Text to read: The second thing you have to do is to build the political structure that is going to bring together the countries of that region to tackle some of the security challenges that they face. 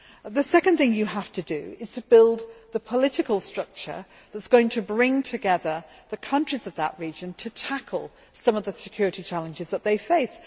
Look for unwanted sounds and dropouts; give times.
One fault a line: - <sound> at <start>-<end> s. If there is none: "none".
none